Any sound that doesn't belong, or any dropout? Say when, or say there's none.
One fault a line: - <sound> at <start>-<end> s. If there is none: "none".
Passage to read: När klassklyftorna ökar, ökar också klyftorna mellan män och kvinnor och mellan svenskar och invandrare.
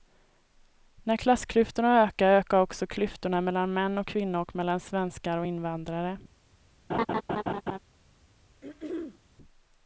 - laugh at 6.9-7.8 s
- throat clearing at 8.6-9.2 s